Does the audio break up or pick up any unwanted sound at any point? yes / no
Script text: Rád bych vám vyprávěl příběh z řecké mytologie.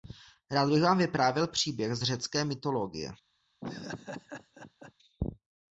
yes